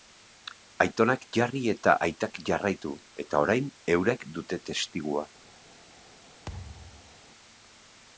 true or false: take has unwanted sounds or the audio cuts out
true